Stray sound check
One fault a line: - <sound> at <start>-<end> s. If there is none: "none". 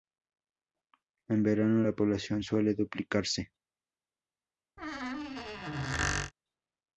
- squeak at 4.8-6.3 s